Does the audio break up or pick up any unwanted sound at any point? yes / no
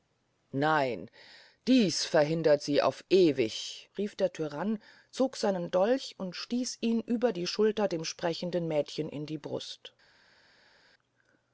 no